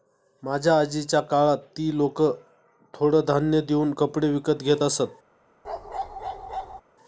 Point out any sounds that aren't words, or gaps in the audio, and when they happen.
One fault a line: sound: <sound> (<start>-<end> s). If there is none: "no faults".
sound: bark (5.6-6.8 s)